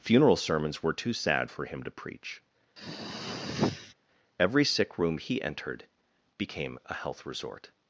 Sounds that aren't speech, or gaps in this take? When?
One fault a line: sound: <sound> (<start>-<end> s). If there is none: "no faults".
sound: throat clearing (2.8-3.9 s)